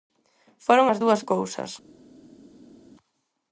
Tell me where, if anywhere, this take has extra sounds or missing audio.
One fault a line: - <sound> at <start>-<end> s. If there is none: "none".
none